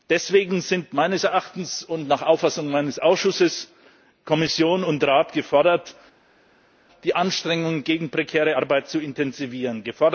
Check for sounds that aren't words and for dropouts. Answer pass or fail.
pass